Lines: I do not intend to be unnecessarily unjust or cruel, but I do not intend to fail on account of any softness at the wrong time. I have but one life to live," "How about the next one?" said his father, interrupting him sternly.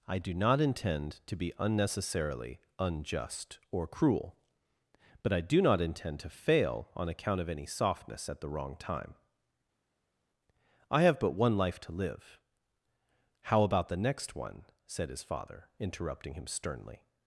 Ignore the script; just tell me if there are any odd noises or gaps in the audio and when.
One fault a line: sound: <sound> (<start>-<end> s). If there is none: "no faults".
no faults